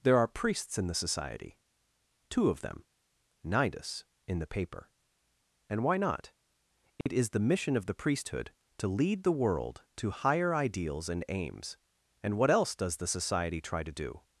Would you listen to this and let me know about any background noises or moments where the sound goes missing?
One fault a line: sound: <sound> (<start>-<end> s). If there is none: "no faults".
sound: dropout (7.0-7.1 s)